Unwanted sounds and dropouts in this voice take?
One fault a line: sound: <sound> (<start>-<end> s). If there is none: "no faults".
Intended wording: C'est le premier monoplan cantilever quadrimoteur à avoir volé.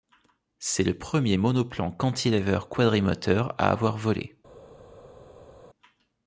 no faults